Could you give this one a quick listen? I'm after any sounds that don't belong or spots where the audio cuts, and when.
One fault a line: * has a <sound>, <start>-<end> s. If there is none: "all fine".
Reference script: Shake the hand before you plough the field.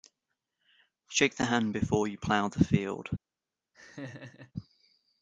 * has a laugh, 3.7-4.5 s